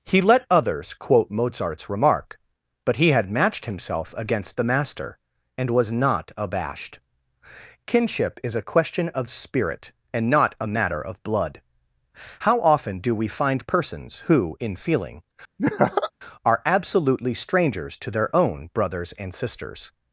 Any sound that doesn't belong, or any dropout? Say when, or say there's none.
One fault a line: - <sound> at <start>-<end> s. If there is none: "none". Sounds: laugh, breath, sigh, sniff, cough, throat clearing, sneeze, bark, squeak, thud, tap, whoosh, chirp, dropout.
- laugh at 15.6-16.1 s